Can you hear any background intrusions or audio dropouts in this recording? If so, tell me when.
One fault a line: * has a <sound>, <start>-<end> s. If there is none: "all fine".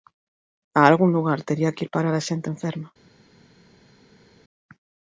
all fine